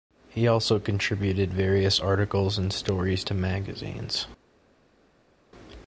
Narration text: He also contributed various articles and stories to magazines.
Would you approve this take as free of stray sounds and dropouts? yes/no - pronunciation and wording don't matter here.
yes